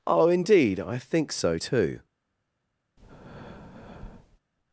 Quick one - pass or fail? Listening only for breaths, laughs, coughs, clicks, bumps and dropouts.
fail